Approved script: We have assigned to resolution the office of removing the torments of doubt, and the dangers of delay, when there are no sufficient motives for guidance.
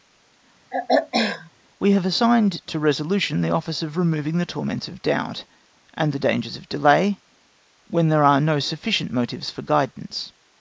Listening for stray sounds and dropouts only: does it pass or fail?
fail